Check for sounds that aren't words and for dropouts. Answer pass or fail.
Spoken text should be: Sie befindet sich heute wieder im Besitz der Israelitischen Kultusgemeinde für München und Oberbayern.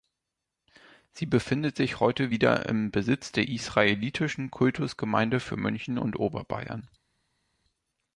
pass